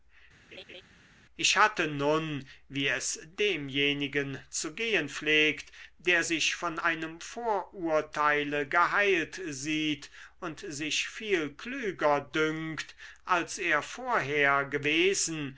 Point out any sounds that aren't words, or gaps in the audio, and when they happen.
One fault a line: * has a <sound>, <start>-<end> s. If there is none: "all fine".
* has a laugh, 0.5-0.8 s